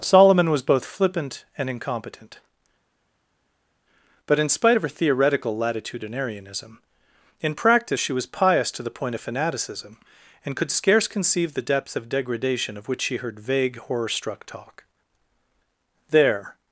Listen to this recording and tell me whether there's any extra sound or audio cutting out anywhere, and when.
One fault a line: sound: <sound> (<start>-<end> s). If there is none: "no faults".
no faults